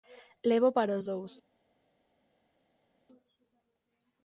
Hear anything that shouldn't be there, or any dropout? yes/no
no